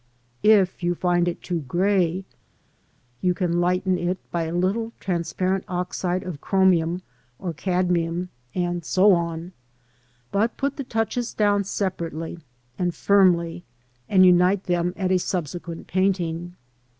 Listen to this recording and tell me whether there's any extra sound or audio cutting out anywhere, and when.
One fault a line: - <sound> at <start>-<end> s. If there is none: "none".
none